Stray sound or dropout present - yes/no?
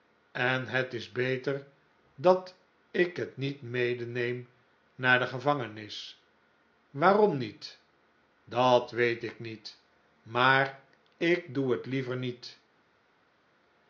no